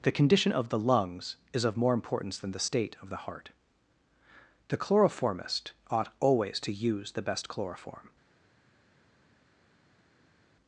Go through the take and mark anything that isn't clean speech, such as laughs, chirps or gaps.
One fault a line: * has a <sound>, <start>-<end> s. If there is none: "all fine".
all fine